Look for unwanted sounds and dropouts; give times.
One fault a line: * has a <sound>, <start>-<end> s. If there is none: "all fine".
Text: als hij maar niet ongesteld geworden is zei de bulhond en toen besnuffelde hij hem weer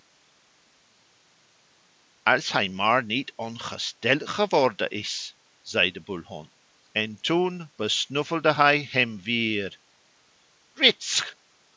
all fine